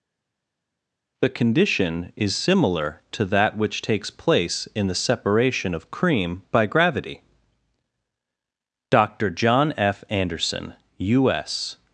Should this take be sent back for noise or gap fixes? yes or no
no